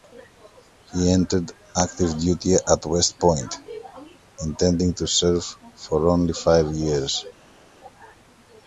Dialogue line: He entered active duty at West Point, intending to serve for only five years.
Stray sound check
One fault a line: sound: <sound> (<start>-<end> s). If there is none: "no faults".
no faults